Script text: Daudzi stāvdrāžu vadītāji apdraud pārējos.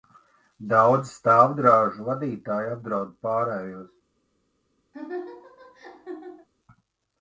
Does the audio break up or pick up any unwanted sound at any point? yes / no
yes